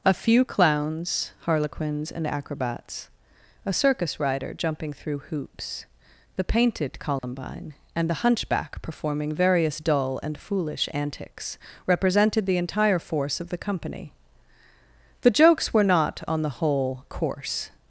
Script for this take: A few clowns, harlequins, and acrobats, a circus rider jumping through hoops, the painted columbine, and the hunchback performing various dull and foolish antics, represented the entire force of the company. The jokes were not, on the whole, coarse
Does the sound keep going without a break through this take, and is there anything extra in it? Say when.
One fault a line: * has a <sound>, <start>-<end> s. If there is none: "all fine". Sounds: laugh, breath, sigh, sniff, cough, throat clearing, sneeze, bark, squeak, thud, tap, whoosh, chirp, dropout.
* has a dropout, 7.2-7.2 s